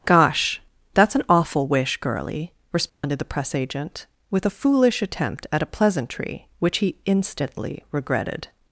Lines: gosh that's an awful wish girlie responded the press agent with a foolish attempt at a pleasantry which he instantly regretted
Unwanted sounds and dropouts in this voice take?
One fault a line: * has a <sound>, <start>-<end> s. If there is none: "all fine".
* has a dropout, 2.9-3.0 s